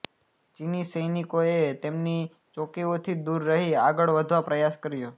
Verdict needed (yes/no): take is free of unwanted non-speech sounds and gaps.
yes